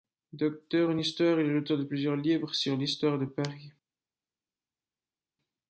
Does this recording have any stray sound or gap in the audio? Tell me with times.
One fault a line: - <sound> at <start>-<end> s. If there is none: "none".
none